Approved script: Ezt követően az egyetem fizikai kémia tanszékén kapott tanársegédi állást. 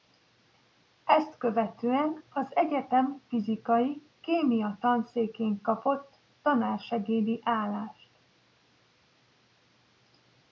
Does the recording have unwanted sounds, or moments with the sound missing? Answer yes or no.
no